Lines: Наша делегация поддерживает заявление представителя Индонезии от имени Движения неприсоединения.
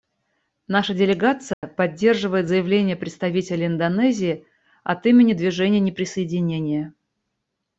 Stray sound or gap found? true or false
true